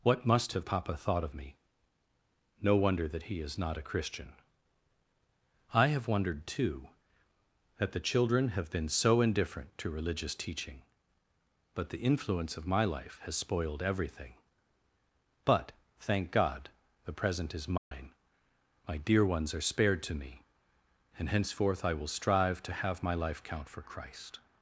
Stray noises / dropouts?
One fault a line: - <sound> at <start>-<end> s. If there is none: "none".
- dropout at 17.8-17.9 s